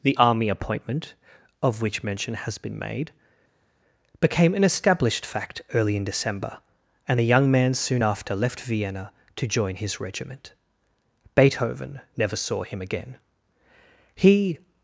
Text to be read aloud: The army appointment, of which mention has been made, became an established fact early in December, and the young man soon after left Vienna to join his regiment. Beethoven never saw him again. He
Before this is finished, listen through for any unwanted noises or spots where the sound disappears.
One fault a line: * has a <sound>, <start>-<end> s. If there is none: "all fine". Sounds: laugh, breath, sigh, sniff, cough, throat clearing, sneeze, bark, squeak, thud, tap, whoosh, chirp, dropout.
all fine